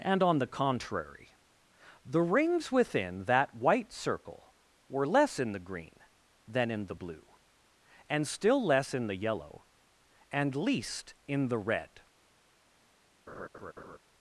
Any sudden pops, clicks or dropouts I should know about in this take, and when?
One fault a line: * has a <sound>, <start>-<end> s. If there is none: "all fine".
* has a laugh, 13.3-14.0 s